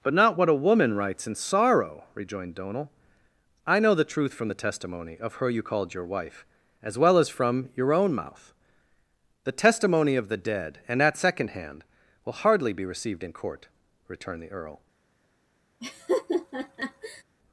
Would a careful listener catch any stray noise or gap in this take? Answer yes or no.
yes